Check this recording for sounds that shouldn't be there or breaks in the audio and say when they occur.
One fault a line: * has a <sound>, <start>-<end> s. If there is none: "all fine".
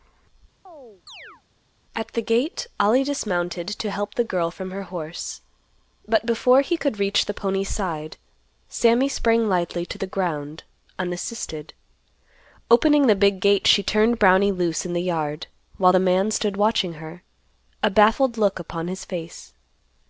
* has a chirp, 0.7-1.4 s